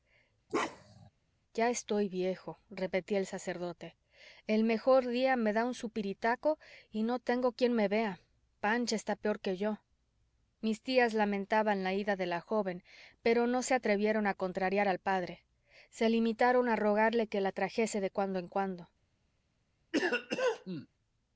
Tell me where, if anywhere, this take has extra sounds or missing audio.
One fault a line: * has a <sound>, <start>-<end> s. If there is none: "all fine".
* has a bark, 0.5-1.1 s
* has a cough, 19.9-20.9 s